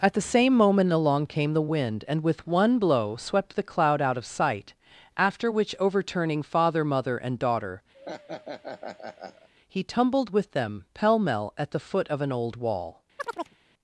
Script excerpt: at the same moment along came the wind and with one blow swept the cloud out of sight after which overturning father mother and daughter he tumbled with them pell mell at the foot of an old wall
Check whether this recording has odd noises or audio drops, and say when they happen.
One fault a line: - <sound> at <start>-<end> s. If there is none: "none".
- laugh at 7.9-9.5 s
- chirp at 13.2-13.6 s